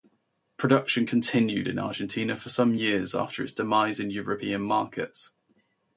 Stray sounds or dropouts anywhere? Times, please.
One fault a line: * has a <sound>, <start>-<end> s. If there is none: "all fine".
all fine